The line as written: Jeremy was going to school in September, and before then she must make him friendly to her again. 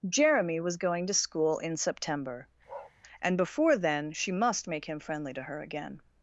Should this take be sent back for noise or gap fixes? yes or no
yes